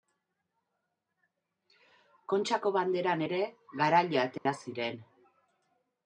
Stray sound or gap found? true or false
true